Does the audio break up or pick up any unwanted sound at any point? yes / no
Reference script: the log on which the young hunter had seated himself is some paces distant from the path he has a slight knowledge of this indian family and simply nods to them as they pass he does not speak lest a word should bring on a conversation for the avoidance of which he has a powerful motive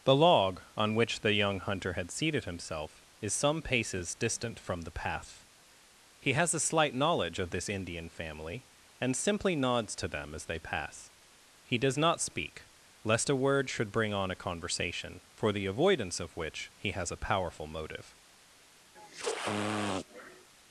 yes